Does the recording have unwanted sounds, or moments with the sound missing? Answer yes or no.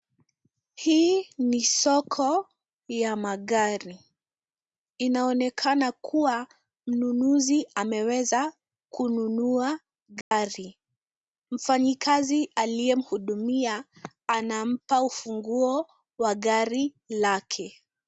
yes